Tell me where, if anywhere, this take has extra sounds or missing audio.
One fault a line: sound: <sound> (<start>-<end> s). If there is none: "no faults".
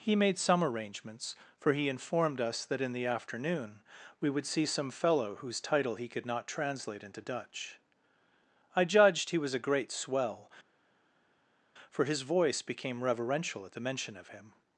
no faults